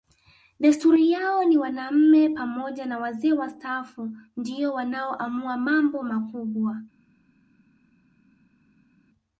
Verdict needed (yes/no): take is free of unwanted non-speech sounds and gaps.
yes